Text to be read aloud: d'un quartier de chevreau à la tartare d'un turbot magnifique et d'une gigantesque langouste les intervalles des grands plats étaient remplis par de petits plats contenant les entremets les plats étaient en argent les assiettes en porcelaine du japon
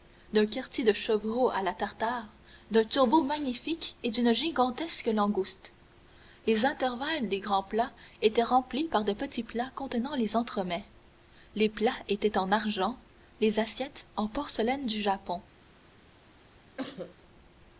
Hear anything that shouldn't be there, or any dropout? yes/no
yes